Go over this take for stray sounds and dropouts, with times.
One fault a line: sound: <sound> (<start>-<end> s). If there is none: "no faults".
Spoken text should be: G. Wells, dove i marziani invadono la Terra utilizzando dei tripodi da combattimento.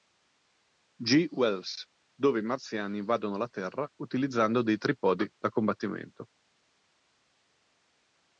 no faults